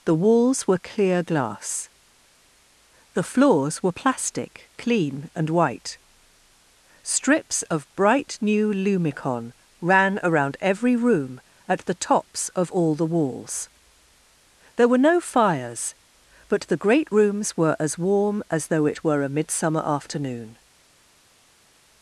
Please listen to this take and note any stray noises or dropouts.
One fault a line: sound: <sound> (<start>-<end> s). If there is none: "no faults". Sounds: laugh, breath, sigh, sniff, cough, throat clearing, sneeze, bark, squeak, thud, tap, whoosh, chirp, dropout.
no faults